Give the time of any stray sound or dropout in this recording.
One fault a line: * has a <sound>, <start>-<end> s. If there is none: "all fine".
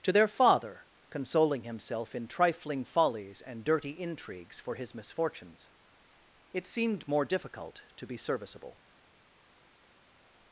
all fine